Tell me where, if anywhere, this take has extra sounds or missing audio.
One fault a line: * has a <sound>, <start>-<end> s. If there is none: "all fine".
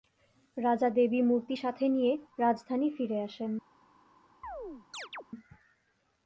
* has a chirp, 4.4-5.2 s